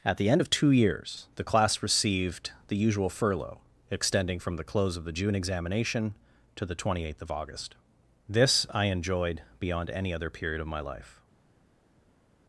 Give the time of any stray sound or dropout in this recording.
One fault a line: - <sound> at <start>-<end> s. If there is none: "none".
none